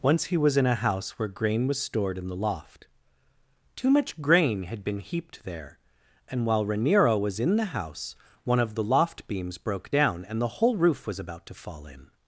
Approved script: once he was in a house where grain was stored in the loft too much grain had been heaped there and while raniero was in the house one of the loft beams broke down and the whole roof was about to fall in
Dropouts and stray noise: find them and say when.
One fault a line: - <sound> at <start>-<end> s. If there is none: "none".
none